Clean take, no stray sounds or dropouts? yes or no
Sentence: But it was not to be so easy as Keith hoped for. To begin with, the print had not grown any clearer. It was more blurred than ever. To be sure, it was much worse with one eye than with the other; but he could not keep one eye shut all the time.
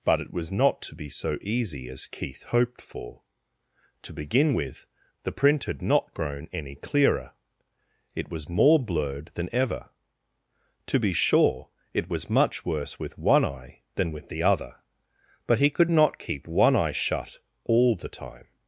yes